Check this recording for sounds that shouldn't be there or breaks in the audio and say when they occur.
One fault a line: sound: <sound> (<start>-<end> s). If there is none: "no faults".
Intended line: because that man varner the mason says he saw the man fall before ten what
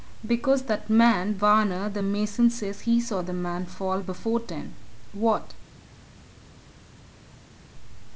no faults